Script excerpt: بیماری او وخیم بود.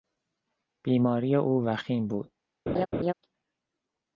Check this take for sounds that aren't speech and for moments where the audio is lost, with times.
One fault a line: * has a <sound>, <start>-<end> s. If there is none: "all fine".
* has a laugh, 2.7-3.1 s